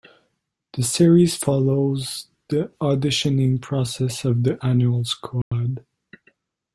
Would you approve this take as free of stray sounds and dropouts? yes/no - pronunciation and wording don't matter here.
no